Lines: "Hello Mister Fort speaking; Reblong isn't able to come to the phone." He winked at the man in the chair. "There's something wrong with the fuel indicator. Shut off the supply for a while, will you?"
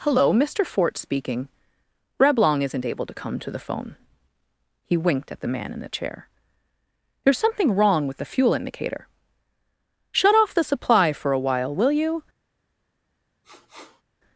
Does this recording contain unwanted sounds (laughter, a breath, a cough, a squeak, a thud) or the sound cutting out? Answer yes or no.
yes